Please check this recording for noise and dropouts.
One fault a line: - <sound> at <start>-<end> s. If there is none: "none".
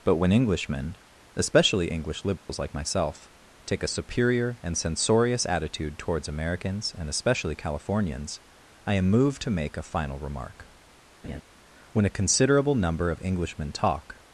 - dropout at 2.4-2.5 s
- laugh at 11.2-11.4 s